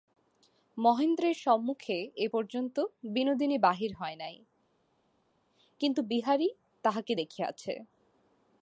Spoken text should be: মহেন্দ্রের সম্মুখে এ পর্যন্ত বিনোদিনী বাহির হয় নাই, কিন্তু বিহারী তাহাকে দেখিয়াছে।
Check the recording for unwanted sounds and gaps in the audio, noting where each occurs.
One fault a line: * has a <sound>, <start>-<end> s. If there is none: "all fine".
all fine